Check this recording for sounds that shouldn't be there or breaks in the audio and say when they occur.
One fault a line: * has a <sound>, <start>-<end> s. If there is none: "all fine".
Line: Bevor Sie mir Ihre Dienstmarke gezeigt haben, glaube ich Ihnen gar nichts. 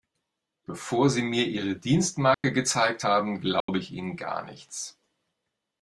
* has a dropout, 2.3-2.4 s
* has a dropout, 3.6-3.7 s